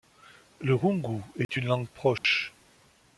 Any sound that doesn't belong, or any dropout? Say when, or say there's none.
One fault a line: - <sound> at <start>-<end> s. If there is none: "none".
- dropout at 1.4-1.5 s
- dropout at 2.2-2.2 s